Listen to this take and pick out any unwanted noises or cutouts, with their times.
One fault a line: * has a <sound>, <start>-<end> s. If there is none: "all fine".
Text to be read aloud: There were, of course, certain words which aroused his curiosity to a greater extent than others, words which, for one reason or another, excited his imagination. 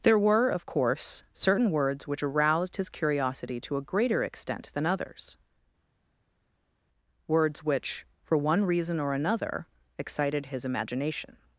all fine